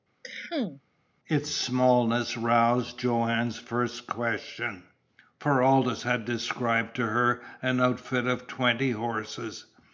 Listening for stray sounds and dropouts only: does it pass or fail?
fail